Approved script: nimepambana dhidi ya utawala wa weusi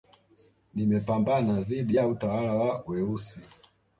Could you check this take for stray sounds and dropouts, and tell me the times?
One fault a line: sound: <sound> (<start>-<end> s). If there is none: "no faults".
no faults